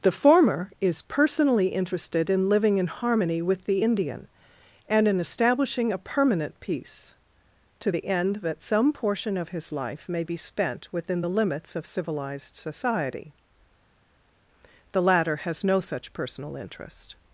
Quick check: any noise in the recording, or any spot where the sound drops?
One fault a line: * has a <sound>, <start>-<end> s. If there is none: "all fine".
all fine